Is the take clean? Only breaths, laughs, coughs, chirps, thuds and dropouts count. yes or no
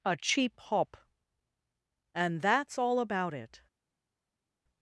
yes